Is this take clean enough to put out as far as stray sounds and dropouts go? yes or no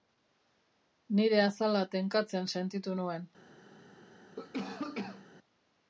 no